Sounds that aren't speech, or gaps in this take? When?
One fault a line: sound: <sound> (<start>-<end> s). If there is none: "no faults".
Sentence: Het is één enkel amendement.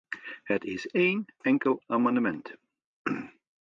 no faults